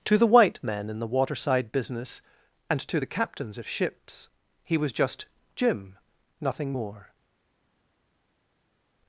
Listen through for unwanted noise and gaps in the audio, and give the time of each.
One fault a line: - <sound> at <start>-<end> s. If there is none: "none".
none